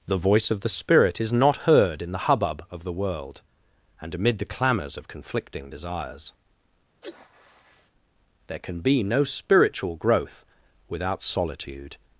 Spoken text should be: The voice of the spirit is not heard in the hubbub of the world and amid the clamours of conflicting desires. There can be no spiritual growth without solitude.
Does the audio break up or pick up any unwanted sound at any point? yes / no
yes